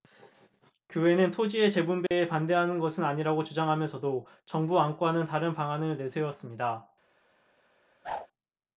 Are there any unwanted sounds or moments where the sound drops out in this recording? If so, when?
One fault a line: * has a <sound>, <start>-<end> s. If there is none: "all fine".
* has a dropout, 2.1-2.1 s
* has a whoosh, 8.0-8.3 s